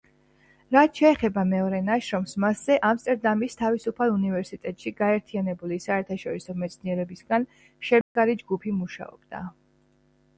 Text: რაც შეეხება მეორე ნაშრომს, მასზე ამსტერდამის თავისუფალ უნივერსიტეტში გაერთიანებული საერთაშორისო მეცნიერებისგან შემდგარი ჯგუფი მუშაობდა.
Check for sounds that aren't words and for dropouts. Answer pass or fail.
fail